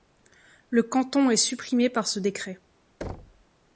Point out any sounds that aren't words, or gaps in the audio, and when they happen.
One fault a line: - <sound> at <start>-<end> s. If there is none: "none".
- thud at 3.0-3.5 s